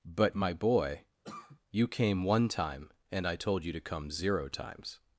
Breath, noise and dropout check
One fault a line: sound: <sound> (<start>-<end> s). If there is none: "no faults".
sound: cough (1.2-1.6 s)